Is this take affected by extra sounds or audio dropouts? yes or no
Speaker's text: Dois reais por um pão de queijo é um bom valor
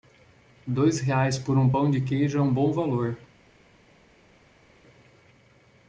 no